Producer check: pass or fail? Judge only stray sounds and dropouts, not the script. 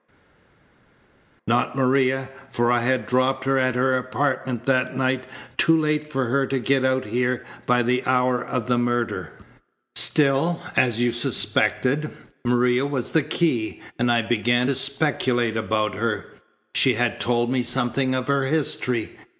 pass